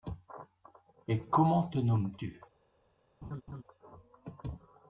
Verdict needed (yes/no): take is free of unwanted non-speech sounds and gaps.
no